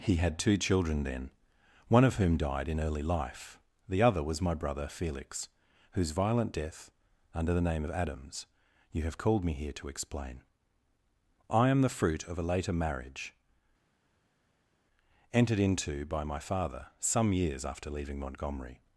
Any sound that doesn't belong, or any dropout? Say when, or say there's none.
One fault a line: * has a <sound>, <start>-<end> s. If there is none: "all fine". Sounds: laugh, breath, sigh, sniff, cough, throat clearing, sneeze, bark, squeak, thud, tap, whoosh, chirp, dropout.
all fine